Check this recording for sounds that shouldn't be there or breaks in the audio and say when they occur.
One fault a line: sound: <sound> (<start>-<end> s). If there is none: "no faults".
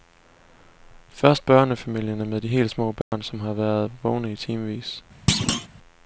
sound: dropout (3.0-3.1 s)
sound: thud (5.3-5.7 s)